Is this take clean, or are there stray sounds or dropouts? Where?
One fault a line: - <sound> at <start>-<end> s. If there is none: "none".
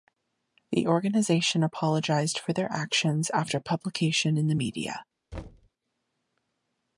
- thud at 5.3-5.7 s